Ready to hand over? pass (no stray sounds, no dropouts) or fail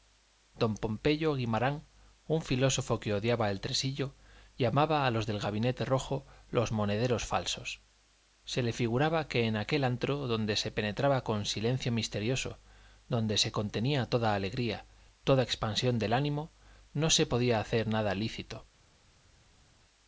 pass